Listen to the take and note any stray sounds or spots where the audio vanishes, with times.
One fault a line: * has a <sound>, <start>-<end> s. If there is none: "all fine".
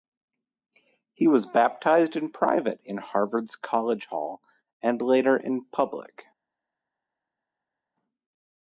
all fine